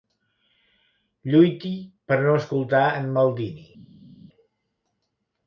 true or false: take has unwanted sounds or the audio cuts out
false